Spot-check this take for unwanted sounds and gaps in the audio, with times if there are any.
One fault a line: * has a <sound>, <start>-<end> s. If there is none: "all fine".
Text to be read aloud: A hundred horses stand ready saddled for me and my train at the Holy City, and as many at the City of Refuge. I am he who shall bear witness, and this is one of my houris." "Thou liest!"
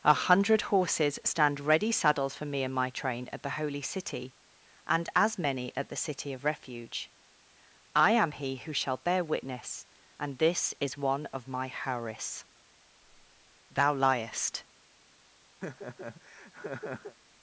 * has a laugh, 15.6-17.2 s